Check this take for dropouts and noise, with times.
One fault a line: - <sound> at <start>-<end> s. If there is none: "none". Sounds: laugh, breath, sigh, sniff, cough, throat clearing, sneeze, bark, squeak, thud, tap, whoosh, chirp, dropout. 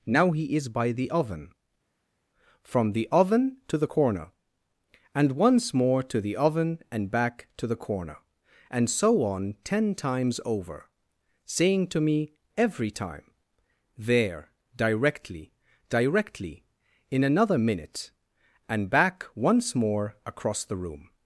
none